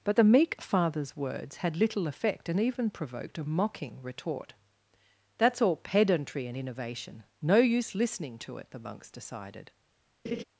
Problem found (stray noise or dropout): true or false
true